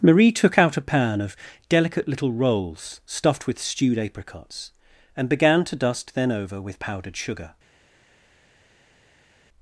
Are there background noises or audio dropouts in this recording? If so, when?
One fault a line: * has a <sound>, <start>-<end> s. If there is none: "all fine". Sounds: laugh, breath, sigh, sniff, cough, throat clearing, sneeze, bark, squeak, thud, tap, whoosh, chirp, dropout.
all fine